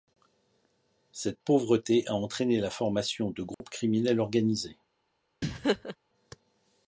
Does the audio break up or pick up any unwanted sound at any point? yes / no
yes